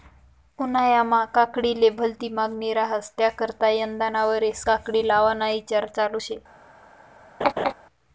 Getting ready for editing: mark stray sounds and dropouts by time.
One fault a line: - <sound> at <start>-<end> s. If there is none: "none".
- laugh at 7.4-7.7 s